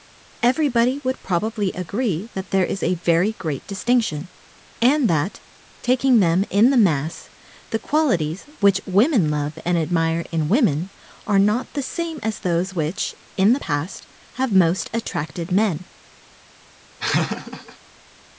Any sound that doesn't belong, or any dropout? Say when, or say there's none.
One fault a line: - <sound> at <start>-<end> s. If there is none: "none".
- laugh at 17.0-17.8 s